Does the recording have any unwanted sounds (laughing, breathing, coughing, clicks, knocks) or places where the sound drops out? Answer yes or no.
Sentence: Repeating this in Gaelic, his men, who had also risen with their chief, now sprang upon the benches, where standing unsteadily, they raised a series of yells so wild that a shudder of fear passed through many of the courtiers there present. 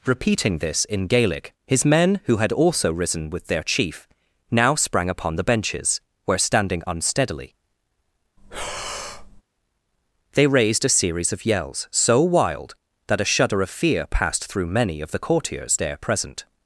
yes